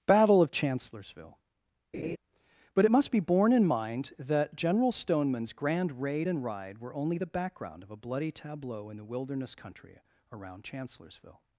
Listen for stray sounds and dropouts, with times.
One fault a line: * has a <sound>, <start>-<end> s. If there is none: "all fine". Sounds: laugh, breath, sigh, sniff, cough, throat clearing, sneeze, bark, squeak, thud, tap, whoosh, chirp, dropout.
* has a laugh, 1.9-2.2 s